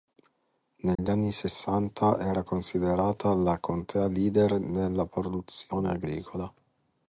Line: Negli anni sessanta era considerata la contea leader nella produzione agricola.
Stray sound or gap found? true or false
true